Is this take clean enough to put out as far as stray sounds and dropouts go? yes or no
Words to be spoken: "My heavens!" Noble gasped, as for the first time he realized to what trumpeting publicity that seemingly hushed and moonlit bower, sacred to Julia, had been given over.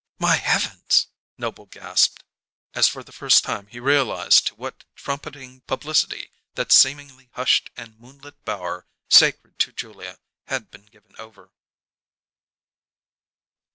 yes